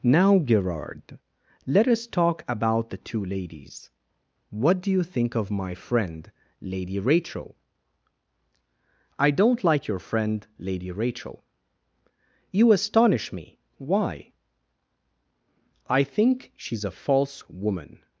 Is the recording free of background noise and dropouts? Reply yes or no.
yes